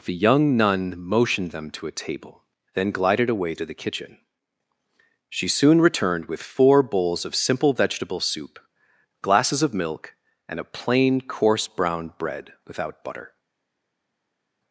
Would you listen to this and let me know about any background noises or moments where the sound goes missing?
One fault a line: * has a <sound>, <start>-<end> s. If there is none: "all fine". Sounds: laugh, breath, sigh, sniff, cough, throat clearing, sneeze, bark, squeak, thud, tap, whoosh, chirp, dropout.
all fine